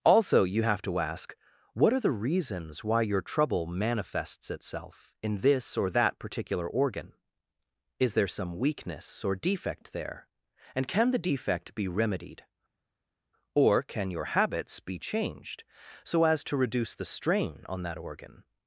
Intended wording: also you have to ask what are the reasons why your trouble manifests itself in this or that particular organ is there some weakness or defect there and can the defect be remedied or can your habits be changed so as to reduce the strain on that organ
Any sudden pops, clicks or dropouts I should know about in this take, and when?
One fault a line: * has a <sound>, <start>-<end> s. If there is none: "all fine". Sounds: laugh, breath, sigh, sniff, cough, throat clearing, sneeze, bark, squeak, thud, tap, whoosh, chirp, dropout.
all fine